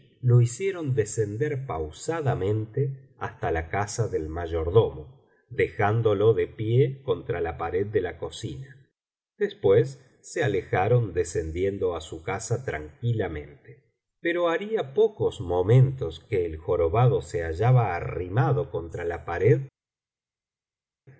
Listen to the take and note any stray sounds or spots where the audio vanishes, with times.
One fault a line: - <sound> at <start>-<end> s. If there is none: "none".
none